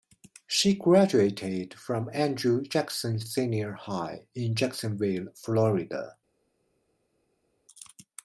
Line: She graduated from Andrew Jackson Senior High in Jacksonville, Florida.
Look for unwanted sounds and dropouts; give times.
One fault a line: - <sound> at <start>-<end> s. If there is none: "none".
none